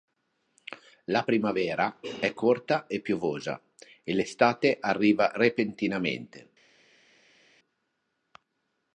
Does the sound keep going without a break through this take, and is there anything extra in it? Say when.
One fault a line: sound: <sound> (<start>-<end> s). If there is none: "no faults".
no faults